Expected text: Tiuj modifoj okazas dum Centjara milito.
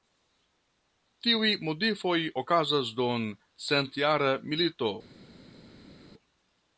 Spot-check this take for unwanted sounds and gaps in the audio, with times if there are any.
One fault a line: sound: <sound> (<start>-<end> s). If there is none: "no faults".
no faults